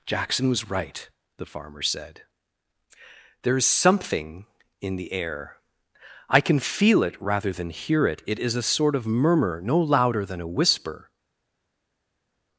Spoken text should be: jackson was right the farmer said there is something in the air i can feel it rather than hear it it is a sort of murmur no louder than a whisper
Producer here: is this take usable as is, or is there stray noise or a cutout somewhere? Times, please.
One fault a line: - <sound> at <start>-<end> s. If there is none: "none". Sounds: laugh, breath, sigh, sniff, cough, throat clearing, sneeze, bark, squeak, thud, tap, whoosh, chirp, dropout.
none